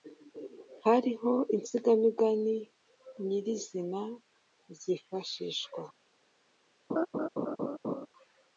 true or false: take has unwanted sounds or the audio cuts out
true